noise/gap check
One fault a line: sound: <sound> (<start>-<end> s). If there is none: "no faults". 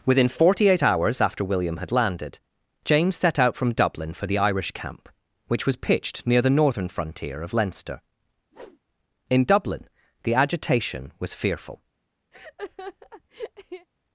sound: whoosh (8.5-8.8 s)
sound: laugh (12.3-13.9 s)